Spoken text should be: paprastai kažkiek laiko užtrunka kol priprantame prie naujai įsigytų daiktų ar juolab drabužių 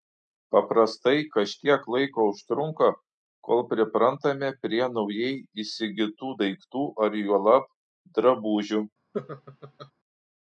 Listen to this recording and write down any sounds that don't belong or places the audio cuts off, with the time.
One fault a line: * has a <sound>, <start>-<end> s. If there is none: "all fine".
* has a laugh, 9.1-9.9 s